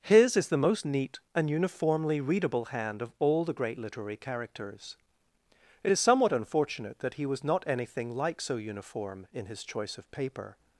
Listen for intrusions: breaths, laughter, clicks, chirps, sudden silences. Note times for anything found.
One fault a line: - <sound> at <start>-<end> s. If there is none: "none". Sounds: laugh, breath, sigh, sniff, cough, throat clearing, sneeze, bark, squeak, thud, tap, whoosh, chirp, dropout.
none